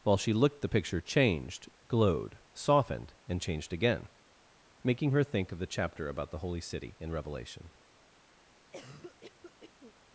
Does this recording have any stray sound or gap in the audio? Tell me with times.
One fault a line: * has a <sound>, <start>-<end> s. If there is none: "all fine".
* has a cough, 8.7-9.9 s